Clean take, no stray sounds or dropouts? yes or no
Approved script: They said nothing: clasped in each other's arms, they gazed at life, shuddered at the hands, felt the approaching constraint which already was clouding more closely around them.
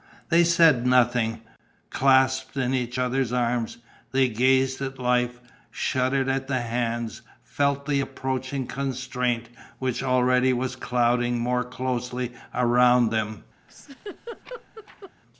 no